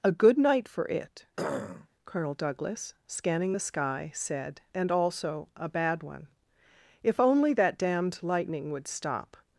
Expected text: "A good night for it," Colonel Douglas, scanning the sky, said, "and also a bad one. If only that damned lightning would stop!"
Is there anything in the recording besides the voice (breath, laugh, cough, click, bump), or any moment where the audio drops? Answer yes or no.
yes